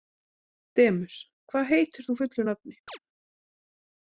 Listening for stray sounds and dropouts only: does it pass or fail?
fail